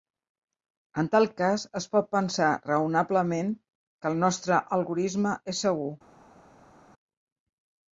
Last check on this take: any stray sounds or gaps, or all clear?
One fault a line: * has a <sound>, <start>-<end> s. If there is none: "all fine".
all fine